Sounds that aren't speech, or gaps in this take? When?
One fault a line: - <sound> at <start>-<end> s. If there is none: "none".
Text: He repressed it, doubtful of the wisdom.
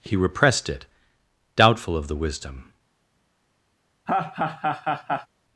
- laugh at 4.1-5.3 s